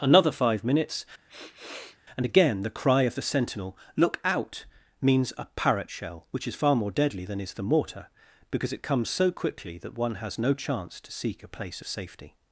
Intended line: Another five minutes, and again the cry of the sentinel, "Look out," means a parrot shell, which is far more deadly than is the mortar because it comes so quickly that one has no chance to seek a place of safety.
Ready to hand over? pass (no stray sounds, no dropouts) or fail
fail